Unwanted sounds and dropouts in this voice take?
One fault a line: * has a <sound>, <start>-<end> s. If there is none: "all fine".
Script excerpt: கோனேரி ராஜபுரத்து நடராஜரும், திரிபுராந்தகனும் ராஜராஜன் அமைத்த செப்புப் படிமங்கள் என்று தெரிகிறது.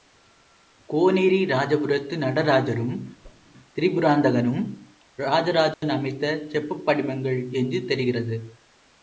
* has a whoosh, 3.2-3.5 s
* has a dropout, 5.7-5.8 s